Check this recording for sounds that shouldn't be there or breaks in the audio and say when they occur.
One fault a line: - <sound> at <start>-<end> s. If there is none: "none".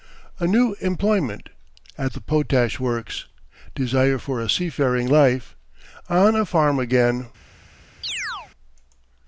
- chirp at 8.0-8.5 s